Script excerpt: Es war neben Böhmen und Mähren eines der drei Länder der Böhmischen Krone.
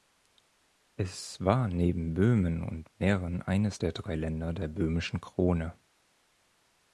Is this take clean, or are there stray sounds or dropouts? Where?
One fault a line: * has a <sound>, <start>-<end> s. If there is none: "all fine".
all fine